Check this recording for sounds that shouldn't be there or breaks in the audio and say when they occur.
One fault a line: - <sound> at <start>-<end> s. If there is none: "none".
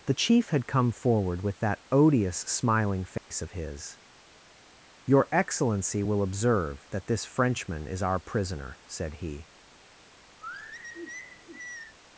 - dropout at 3.2-3.3 s
- sigh at 10.4-12.0 s